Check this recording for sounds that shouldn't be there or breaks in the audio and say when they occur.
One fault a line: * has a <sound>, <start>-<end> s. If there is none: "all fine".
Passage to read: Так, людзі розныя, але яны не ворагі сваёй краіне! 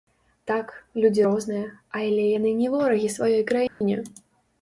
* has a dropout, 3.7-3.8 s